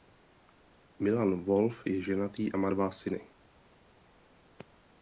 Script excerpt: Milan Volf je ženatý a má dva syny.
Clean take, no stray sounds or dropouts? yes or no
yes